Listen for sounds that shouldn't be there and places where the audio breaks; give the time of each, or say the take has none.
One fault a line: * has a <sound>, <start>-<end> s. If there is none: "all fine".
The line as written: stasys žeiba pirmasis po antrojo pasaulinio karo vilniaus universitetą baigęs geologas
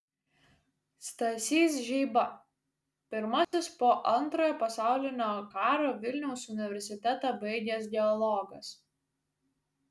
* has a dropout, 3.4-3.5 s